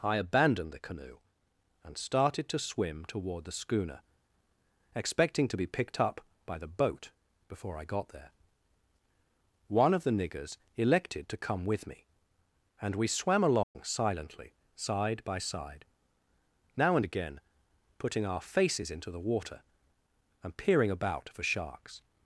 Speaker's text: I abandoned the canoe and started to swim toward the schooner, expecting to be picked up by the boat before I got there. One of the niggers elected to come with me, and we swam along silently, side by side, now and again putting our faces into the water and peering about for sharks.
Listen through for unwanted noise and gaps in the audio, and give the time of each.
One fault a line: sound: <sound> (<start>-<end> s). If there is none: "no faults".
sound: dropout (13.6-13.8 s)